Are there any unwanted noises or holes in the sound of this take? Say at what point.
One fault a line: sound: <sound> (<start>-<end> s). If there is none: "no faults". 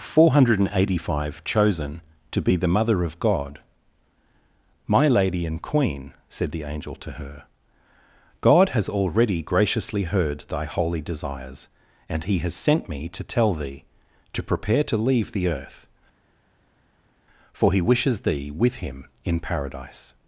no faults